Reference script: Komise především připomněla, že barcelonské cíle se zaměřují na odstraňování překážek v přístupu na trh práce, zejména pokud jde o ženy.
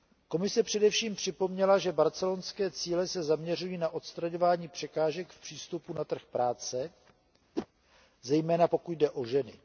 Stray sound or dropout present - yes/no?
yes